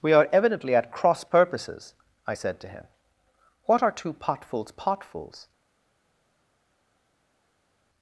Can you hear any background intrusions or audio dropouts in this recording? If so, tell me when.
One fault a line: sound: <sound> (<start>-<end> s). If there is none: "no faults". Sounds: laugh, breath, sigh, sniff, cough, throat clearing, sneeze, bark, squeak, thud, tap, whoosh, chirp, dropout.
no faults